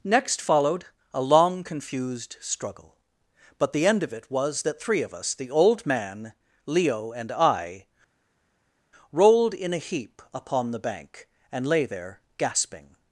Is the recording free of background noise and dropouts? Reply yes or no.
yes